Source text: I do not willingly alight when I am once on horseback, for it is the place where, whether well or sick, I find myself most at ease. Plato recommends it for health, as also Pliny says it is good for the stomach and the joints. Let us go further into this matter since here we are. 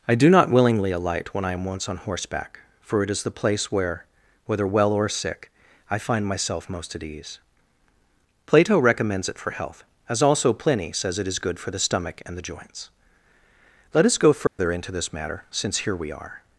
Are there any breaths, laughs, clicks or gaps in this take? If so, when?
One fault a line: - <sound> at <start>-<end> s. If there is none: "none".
- dropout at 14.5-14.6 s